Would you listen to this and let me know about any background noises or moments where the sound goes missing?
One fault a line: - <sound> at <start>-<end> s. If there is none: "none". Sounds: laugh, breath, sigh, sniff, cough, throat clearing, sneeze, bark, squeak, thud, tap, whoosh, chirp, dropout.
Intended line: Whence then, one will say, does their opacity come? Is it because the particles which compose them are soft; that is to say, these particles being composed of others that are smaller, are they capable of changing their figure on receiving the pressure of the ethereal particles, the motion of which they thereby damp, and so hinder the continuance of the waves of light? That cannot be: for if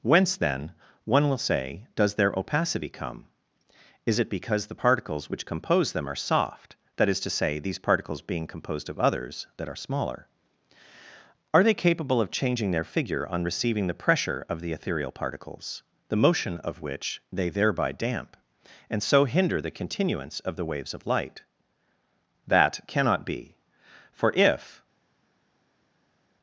none